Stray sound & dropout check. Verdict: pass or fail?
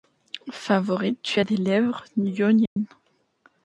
fail